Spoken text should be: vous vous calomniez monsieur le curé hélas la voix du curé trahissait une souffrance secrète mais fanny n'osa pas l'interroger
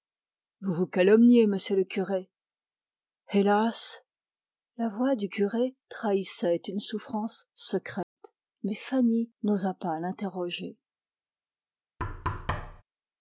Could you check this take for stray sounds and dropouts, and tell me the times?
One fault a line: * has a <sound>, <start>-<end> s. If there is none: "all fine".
* has a dropout, 8.0-8.2 s
* has a thud, 12.0-12.8 s